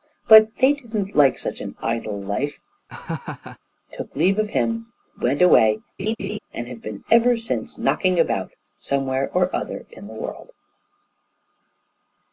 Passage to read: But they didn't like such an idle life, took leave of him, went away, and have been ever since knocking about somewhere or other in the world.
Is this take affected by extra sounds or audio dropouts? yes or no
yes